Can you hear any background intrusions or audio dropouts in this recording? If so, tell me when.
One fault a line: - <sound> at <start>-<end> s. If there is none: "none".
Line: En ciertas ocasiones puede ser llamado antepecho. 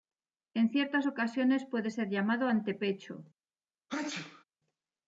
- sneeze at 3.9-4.4 s